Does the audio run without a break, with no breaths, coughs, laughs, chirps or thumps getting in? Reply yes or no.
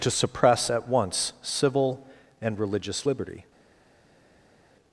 yes